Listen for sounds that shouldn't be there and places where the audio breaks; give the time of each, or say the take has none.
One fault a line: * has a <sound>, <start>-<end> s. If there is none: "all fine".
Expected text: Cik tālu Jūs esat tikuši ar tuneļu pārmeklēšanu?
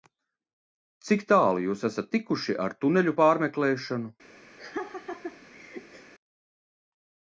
* has a laugh, 4.6-6.1 s